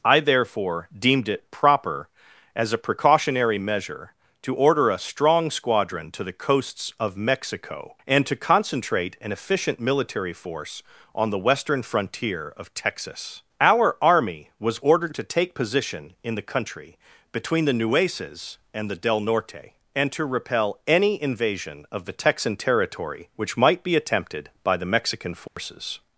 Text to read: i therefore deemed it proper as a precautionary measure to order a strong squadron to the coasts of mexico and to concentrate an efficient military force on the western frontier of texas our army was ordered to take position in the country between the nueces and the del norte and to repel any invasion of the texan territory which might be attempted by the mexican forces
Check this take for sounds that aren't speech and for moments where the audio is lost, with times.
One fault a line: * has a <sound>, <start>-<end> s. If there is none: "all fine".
* has a dropout, 25.5-25.6 s